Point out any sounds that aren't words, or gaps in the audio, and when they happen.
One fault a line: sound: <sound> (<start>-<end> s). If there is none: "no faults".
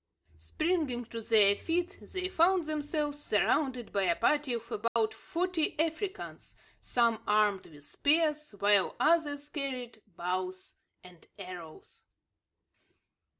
sound: dropout (4.9-5.0 s)